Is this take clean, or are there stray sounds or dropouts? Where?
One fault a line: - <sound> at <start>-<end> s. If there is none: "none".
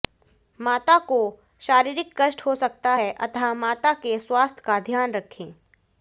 none